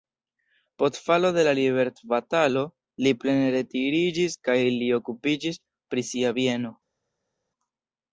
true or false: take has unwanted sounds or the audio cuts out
false